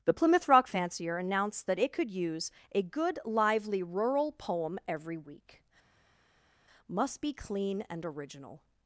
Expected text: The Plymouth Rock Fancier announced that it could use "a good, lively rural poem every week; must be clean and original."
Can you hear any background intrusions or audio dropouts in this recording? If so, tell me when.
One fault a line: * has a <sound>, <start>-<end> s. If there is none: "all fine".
all fine